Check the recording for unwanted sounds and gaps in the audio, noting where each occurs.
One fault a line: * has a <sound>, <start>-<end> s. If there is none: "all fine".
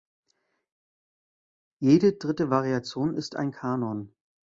all fine